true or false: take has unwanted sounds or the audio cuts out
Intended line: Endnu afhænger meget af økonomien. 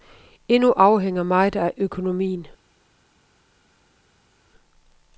false